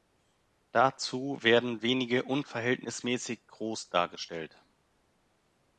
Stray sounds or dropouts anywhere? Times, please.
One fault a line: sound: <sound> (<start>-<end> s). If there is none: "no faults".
no faults